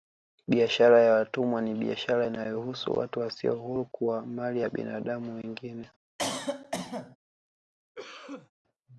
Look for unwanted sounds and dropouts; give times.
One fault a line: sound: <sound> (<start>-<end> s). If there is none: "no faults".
sound: cough (6.2-7.2 s)
sound: cough (8.0-8.5 s)